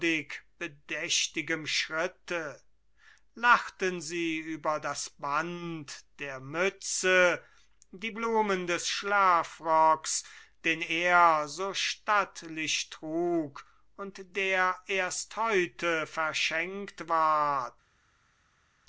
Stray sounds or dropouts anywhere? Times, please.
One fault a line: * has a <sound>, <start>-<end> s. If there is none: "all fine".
all fine